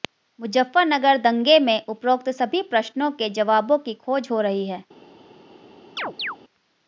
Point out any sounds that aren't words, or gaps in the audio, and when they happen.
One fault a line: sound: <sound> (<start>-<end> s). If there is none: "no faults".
sound: chirp (6.0-6.4 s)